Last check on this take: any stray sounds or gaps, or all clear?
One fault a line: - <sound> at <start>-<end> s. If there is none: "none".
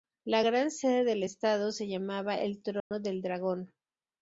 - dropout at 2.8-2.9 s